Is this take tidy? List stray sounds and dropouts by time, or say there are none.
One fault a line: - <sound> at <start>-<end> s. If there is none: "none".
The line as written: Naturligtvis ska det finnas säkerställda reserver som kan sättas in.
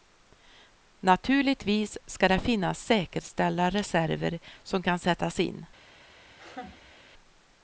- laugh at 6.3-7.0 s